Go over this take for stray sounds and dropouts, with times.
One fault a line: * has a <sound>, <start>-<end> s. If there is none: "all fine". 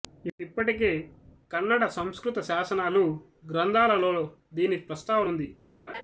* has a laugh, 5.9-6.0 s